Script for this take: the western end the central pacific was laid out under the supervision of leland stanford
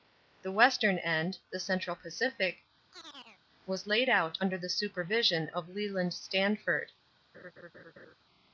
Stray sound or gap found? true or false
true